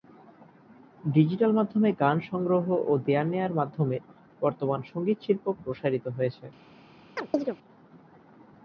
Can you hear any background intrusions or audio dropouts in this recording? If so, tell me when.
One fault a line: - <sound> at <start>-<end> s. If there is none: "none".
- chirp at 7.2-7.6 s